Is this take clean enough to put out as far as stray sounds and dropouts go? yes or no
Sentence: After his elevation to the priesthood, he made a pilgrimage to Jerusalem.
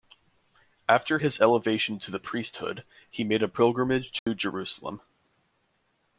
no